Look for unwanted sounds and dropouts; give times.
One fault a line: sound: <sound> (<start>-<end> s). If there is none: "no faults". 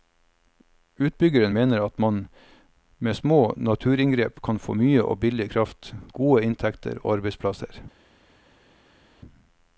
no faults